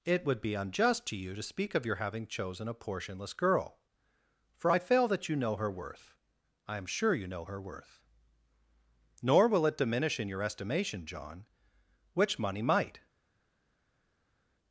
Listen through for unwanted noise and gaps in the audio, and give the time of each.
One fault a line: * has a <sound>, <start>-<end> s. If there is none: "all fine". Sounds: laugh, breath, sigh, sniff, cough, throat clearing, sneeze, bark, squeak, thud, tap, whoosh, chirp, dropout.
all fine